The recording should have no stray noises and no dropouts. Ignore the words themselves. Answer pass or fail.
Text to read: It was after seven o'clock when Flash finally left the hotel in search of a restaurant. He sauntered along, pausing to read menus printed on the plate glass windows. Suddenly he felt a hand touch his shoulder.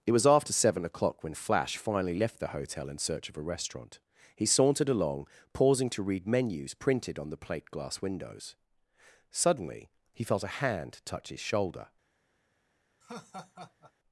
fail